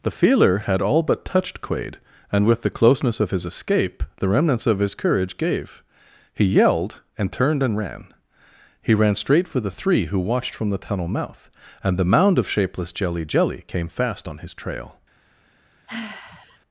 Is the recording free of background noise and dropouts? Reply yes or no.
no